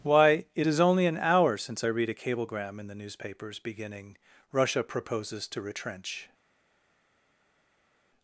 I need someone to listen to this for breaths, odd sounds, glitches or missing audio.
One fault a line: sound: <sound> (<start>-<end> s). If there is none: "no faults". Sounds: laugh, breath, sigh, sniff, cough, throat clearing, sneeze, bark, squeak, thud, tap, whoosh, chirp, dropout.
no faults